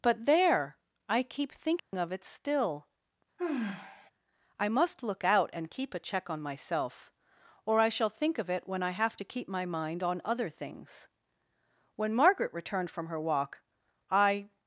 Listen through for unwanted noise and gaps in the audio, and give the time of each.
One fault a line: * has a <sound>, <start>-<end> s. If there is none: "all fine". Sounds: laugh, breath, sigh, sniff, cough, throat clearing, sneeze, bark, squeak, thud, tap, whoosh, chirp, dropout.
* has a dropout, 1.8-1.9 s
* has a sigh, 3.4-4.1 s